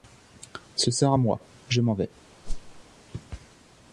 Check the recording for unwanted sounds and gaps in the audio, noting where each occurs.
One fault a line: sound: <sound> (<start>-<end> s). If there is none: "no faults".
sound: whoosh (2.4-2.8 s)